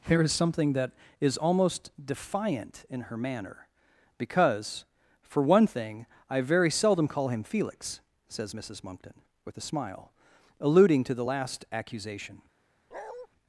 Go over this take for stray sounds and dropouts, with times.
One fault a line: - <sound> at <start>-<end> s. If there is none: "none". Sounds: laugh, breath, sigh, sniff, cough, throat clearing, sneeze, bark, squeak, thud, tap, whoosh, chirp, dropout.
- bark at 12.9-13.3 s